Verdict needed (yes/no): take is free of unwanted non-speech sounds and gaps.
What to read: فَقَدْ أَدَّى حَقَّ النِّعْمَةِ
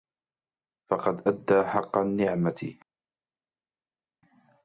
yes